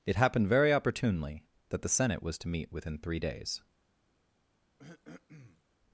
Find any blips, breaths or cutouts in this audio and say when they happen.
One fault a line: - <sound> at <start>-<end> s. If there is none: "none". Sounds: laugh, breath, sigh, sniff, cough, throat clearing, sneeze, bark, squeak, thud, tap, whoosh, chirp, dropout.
- throat clearing at 4.8-5.6 s